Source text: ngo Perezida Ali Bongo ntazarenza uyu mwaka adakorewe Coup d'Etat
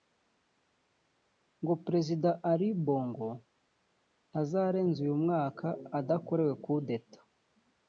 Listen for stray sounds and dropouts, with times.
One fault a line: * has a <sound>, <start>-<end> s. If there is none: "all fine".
all fine